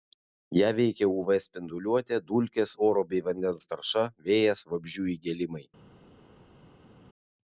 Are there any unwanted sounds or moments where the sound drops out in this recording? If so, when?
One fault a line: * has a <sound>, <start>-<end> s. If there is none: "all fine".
all fine